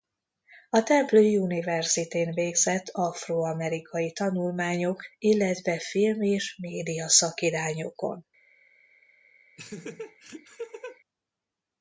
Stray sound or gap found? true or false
true